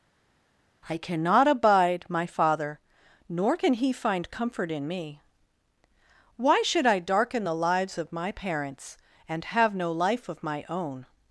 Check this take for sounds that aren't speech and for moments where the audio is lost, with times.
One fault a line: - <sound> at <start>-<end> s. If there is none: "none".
none